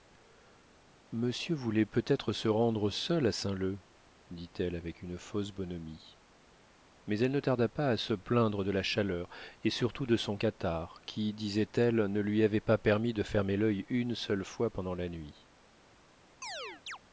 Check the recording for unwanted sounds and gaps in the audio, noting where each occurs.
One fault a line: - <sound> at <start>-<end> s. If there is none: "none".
- chirp at 16.4-17.0 s